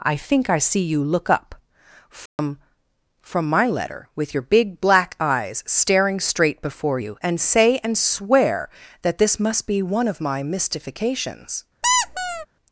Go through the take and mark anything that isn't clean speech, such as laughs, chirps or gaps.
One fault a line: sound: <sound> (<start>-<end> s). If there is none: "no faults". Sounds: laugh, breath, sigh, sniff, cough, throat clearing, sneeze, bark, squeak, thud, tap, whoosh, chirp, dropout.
sound: dropout (2.3-2.4 s)
sound: squeak (11.8-12.5 s)